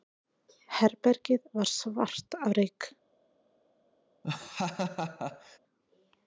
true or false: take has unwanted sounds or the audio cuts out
true